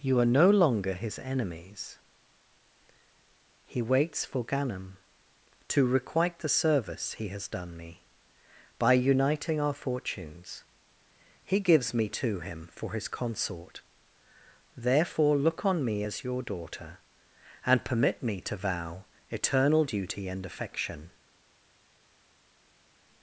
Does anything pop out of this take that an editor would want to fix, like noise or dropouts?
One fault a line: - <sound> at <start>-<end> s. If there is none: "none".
none